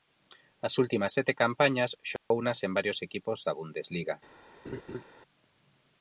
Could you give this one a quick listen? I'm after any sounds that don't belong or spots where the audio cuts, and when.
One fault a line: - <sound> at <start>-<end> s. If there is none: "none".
- dropout at 2.2-2.3 s
- laugh at 4.6-5.0 s